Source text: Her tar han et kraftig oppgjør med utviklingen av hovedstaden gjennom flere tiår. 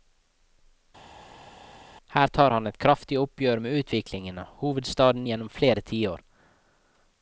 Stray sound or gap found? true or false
false